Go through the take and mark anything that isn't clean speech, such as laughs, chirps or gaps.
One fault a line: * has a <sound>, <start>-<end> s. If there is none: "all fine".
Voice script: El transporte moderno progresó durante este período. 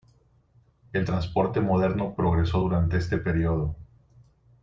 all fine